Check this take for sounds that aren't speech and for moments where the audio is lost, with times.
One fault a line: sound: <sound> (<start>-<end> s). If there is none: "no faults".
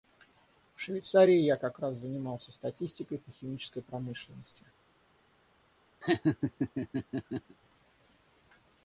sound: laugh (6.0-7.6 s)